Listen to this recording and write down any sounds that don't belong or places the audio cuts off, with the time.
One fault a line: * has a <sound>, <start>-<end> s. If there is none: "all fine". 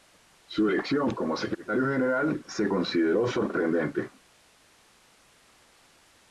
all fine